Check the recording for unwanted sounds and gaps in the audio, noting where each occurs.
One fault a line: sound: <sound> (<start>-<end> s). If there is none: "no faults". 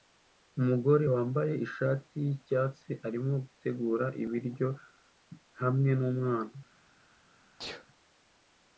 sound: sneeze (7.6-7.9 s)